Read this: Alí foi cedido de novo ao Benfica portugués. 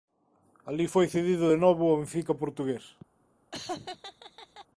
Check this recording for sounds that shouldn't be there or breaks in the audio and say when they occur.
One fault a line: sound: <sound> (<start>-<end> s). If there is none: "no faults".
sound: laugh (3.5-4.7 s)